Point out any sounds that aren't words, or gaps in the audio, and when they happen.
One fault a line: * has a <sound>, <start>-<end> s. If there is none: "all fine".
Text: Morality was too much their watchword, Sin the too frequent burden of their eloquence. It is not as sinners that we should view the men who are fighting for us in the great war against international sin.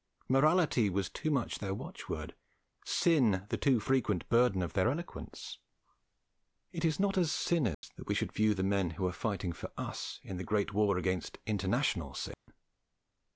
* has a dropout, 7.7-7.8 s
* has a dropout, 12.3-12.5 s